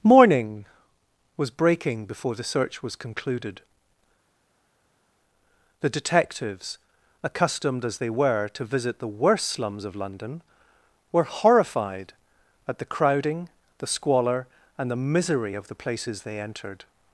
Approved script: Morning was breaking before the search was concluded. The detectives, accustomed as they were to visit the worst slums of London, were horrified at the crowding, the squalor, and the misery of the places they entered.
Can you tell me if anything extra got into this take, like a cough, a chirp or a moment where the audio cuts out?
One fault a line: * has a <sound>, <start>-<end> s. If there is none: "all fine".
all fine